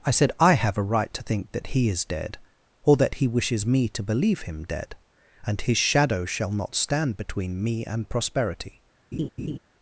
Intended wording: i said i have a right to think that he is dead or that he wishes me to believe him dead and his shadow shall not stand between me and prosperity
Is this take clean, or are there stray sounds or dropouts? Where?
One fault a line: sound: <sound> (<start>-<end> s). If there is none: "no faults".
sound: laugh (9.1-9.6 s)